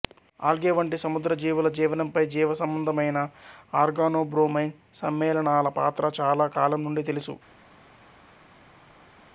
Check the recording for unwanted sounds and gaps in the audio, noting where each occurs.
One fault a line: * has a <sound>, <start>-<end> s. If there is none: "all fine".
all fine